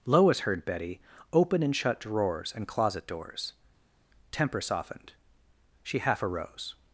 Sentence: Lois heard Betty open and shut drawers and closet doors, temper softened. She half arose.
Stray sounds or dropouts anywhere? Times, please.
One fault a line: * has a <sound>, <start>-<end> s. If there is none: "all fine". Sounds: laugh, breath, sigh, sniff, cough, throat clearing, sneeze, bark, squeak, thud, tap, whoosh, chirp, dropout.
all fine